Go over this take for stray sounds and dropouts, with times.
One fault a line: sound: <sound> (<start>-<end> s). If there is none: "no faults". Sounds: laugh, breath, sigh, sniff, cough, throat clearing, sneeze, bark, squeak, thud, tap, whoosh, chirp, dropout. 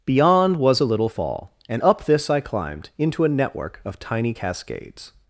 no faults